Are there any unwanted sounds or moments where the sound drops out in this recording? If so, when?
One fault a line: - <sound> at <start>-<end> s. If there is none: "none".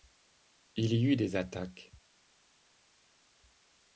none